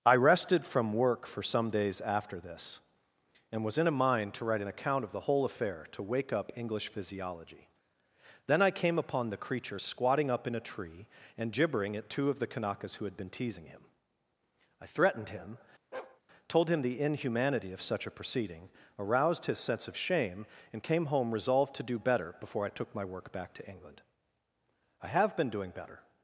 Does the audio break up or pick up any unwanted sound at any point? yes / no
yes